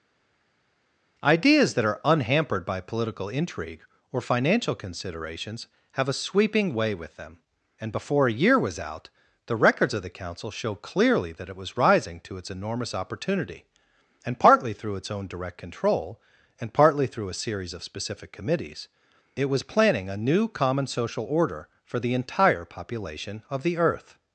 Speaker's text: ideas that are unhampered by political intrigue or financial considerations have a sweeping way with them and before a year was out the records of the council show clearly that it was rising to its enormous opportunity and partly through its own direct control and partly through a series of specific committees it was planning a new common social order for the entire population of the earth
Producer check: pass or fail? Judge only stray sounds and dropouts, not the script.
pass